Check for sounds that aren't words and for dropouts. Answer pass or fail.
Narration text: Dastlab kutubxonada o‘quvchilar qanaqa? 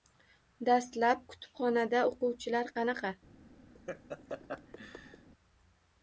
fail